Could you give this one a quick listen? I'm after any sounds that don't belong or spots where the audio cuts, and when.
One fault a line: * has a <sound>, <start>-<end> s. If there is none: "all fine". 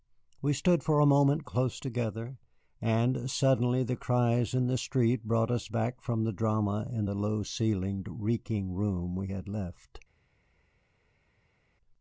all fine